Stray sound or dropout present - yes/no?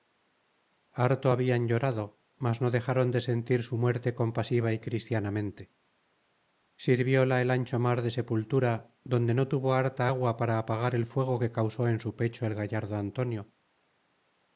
no